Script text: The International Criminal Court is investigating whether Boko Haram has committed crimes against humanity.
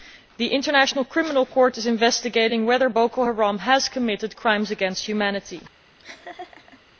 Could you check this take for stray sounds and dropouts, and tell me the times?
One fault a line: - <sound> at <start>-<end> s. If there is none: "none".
- laugh at 6.0-6.8 s